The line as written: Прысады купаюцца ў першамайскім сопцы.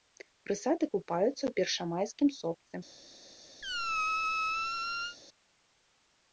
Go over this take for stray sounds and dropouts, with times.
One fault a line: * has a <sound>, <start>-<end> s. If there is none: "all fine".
* has a squeak, 3.6-5.2 s